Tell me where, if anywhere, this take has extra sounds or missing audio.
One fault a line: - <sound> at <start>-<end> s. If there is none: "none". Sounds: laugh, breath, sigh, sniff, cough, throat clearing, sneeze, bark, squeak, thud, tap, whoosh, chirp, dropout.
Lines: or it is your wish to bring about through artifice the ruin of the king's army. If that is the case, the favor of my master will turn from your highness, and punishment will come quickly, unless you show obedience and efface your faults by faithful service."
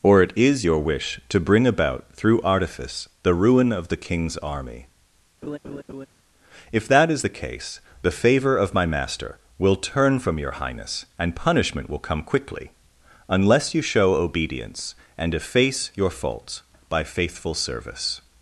- laugh at 5.4-6.1 s